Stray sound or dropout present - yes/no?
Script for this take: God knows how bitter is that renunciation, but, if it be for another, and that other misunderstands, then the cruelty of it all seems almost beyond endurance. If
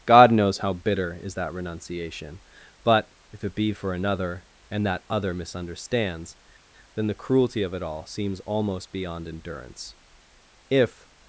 no